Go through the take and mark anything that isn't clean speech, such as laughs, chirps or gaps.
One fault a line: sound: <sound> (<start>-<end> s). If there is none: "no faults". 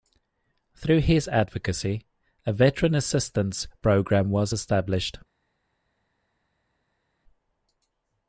no faults